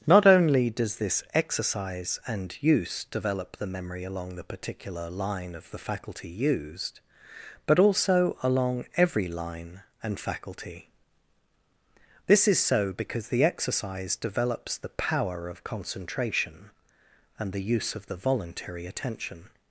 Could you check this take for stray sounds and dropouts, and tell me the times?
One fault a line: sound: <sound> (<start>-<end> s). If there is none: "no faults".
no faults